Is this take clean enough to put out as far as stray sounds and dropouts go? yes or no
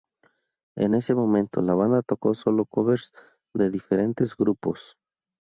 yes